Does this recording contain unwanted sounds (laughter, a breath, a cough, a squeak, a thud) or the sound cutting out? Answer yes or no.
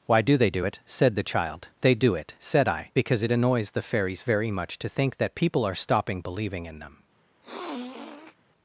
yes